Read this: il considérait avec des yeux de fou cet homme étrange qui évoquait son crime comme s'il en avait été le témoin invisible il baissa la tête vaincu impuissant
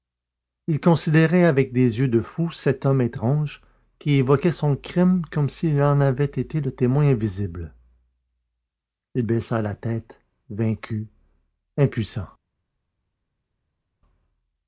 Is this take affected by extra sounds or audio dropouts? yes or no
no